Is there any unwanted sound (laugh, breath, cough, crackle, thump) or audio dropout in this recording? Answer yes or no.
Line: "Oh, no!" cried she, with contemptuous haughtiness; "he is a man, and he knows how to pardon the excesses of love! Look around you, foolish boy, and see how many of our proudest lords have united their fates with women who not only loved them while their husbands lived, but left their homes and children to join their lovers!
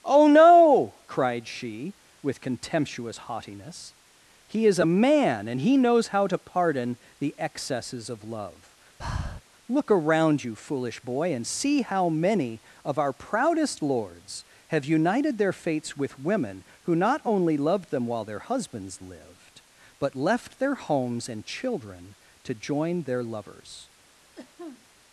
yes